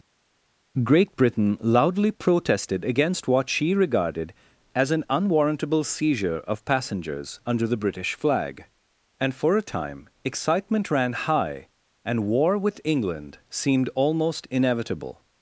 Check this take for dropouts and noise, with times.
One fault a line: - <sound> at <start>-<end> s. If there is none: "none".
none